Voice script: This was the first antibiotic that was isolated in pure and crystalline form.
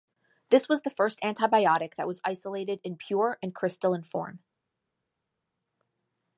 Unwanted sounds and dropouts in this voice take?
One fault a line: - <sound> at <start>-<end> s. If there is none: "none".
none